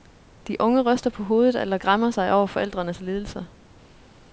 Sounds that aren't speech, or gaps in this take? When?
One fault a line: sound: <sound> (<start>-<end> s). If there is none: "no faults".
no faults